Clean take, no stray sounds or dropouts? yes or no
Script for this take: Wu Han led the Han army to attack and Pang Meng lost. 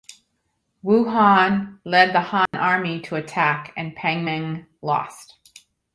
no